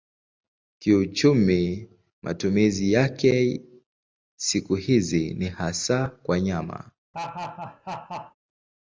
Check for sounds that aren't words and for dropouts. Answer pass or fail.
fail